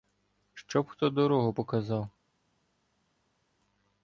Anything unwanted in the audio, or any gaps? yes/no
no